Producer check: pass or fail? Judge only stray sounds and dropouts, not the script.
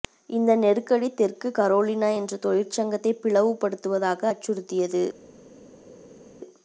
pass